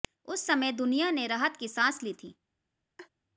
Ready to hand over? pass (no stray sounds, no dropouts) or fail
fail